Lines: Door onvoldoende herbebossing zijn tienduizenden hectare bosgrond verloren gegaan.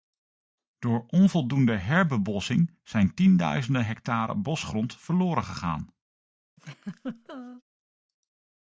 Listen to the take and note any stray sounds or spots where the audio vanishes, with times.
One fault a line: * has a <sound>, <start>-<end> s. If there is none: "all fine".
* has a laugh, 6.6-7.6 s